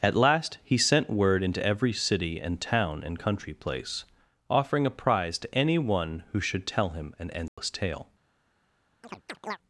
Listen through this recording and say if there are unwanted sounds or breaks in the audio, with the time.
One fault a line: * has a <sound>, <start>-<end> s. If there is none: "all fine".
* has a dropout, 7.5-7.6 s
* has a chirp, 9.0-9.6 s